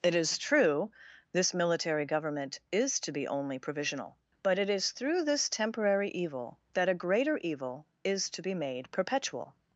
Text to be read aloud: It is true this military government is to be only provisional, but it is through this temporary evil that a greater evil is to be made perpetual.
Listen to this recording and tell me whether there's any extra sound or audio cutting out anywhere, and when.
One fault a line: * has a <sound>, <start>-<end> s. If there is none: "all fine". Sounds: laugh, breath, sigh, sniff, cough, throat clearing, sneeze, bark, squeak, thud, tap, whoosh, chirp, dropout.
all fine